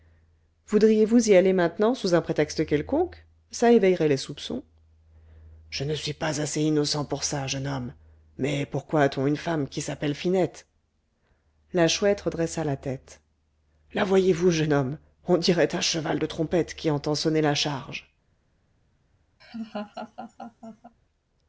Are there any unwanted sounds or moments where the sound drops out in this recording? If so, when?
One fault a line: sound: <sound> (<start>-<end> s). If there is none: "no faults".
sound: laugh (19.4-20.9 s)